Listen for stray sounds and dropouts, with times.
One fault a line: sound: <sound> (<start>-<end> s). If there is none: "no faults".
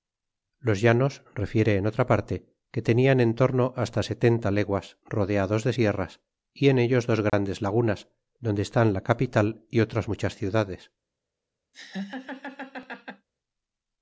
sound: dropout (7.3-7.3 s)
sound: laugh (11.7-13.3 s)